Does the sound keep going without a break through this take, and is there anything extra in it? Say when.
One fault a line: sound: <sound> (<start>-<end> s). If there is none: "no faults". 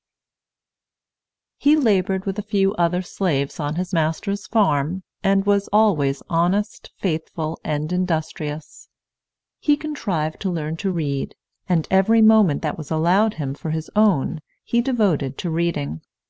no faults